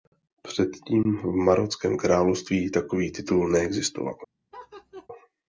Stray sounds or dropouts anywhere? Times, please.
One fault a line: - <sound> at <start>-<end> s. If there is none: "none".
- laugh at 4.5-5.1 s